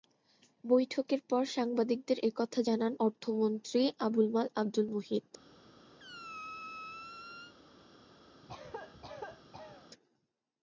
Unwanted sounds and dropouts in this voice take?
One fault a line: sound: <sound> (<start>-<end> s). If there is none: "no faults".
sound: squeak (6.0-7.5 s)
sound: cough (8.4-9.9 s)